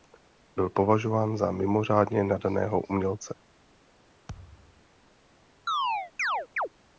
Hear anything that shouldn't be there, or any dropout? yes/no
yes